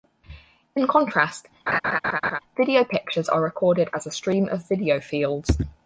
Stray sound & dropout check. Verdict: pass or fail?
fail